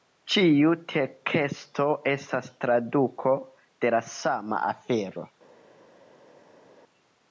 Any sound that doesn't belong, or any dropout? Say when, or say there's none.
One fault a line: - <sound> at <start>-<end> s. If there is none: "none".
none